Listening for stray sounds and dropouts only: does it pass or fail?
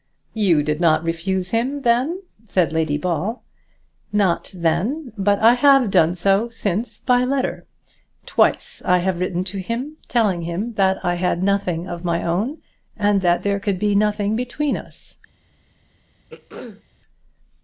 fail